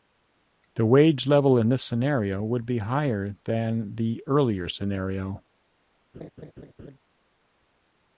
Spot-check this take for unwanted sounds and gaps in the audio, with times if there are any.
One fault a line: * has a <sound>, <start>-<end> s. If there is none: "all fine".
* has a laugh, 6.1-7.0 s